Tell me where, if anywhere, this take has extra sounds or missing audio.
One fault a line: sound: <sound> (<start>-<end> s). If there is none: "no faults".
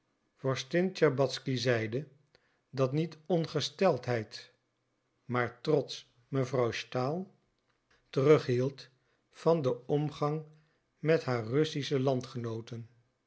no faults